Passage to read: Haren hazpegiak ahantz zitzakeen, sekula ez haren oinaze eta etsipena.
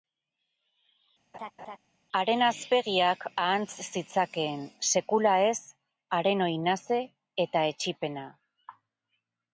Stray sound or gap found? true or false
true